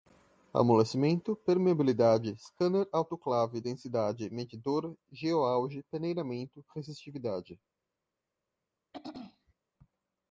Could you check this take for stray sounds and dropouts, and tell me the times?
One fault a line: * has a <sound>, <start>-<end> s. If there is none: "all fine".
* has a throat clearing, 8.9-9.5 s